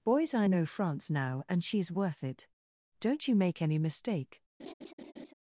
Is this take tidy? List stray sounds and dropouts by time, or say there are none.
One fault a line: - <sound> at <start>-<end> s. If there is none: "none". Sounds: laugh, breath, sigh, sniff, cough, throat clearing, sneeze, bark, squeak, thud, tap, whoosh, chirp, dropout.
- laugh at 4.6-5.3 s